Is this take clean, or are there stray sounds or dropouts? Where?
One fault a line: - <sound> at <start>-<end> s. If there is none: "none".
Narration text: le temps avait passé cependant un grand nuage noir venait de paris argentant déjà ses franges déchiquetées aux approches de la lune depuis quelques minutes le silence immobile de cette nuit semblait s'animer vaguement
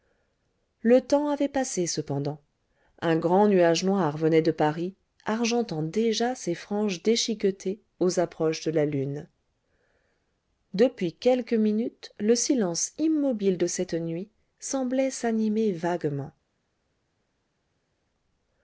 none